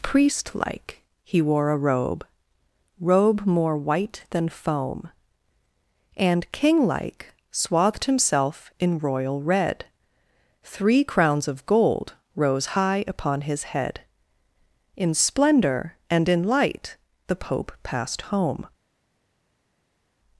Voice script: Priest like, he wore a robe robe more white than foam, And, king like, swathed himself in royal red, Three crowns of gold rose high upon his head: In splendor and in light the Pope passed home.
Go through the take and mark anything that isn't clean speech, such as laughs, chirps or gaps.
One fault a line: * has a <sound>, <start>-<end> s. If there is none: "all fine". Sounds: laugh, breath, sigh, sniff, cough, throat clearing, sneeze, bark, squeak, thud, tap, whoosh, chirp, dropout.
all fine